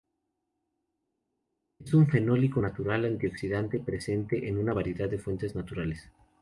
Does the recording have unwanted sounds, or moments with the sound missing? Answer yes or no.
no